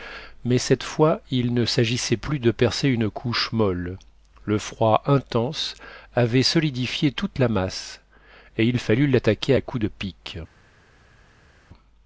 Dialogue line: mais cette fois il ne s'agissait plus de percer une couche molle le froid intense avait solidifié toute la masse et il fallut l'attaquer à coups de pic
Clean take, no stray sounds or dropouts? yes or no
yes